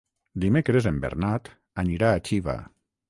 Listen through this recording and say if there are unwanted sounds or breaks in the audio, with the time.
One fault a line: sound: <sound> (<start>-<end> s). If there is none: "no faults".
no faults